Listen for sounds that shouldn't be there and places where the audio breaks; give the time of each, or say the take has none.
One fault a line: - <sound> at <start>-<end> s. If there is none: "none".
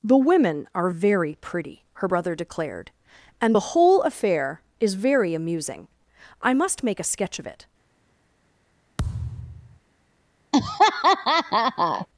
- thud at 9.0-9.8 s
- laugh at 10.5-12.1 s